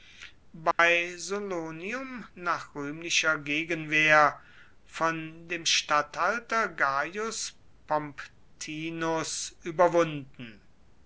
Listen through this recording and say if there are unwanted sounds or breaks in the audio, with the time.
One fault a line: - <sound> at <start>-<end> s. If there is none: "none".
- dropout at 0.7-0.8 s